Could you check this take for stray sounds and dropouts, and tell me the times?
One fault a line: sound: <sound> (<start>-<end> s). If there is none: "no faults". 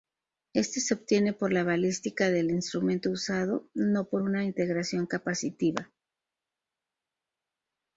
no faults